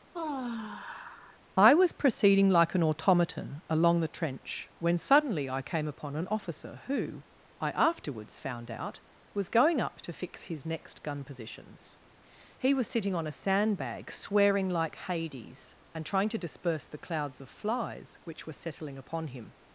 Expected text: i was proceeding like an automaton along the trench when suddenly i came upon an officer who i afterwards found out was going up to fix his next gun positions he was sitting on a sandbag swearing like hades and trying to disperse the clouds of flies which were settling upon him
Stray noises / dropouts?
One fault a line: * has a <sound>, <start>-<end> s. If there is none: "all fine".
* has a sigh, 0.1-1.4 s